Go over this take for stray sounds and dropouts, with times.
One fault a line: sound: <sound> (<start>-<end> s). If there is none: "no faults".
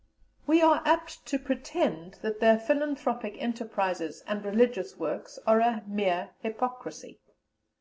no faults